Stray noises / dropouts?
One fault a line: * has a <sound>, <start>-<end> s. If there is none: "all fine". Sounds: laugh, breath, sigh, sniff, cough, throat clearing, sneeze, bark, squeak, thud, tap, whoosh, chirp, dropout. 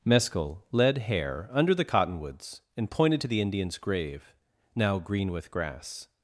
all fine